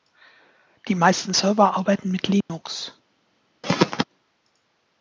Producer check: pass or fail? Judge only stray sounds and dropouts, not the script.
fail